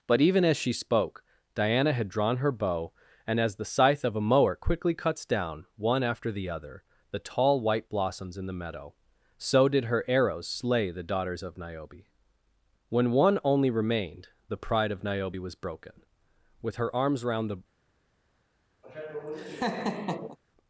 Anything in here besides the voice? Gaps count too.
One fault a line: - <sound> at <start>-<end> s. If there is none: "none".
- laugh at 18.8-20.4 s